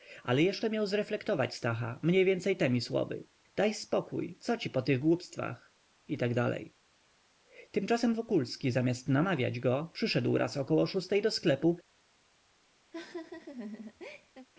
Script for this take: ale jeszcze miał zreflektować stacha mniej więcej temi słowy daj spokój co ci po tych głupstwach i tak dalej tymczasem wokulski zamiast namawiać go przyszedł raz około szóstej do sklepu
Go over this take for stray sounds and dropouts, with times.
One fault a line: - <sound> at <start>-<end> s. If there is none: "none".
- laugh at 12.9-14.5 s